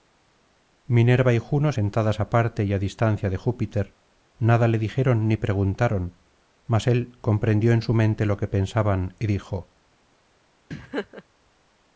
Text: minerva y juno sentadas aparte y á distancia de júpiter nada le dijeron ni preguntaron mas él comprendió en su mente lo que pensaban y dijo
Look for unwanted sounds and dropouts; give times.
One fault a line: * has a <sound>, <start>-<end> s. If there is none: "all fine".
* has a laugh, 10.7-11.2 s